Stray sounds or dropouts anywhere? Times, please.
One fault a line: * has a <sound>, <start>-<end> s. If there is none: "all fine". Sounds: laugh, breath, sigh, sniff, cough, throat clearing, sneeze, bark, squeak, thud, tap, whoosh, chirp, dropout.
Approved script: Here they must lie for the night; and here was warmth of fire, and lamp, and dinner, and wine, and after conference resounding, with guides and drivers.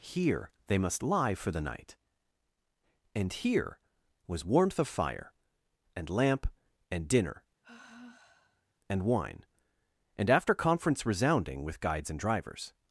* has a sigh, 7.6-8.7 s